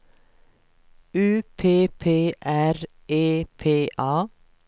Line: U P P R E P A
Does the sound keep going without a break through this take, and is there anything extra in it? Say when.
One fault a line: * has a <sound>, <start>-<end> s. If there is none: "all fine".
all fine